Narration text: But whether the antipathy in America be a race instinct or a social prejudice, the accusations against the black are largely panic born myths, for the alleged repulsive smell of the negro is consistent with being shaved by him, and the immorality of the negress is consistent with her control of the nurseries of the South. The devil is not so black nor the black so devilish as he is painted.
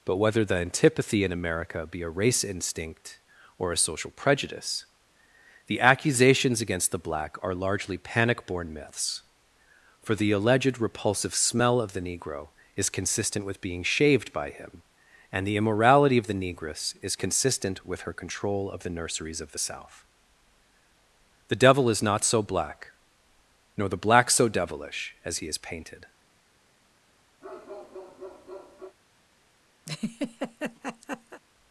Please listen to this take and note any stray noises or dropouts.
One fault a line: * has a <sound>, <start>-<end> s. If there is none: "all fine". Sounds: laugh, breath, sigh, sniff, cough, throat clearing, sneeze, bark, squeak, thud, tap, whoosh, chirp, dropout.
* has a bark, 27.4-29.0 s
* has a laugh, 29.9-31.4 s